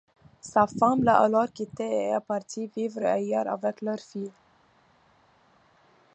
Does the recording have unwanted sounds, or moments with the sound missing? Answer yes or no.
no